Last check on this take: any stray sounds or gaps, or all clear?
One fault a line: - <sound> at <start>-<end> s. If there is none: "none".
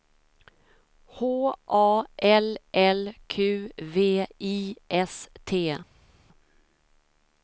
none